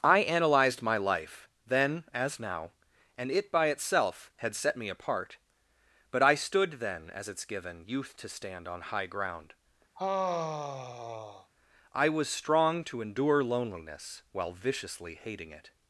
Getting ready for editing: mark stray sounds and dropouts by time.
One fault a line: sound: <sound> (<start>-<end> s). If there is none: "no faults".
sound: sigh (9.9-11.5 s)